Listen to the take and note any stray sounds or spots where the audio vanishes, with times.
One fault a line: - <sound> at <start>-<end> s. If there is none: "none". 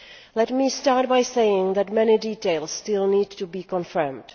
none